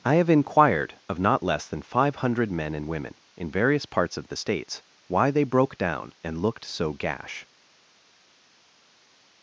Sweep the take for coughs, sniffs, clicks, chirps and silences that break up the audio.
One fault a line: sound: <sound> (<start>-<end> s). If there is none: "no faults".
no faults